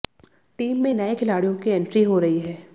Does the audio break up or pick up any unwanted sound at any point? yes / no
no